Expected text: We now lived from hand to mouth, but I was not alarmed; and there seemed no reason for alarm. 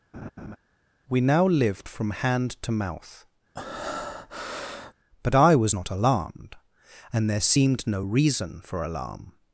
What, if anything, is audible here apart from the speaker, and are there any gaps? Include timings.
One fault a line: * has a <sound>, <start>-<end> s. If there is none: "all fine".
* has a laugh, 0.1-0.6 s
* has a breath, 3.5-4.9 s